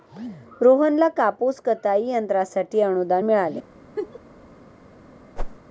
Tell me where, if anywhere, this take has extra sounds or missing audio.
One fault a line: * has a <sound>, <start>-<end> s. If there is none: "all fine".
* has a laugh, 4.0-4.2 s
* has a whoosh, 5.4-5.6 s